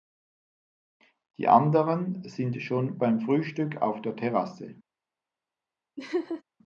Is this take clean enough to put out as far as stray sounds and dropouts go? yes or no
no